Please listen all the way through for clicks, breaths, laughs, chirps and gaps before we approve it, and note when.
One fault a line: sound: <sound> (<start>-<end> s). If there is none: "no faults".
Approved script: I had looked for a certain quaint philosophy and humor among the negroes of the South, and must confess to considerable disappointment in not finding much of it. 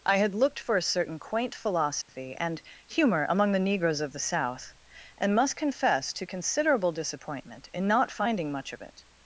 sound: dropout (2.0-2.1 s)